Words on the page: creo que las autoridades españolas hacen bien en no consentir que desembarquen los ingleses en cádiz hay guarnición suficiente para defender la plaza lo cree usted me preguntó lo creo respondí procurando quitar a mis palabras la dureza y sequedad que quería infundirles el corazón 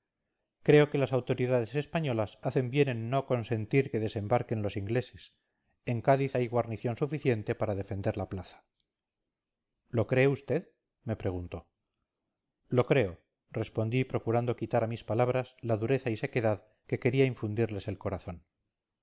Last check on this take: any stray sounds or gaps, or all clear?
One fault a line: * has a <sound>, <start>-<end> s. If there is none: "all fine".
all fine